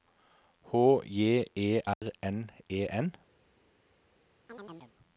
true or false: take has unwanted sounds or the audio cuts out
true